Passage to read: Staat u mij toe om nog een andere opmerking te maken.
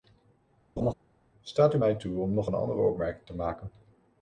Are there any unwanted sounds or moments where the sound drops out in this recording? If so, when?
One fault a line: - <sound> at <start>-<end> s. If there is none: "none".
- laugh at 0.8-0.9 s